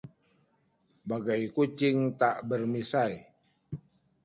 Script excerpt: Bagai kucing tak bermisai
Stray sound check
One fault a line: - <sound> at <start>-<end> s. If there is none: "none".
none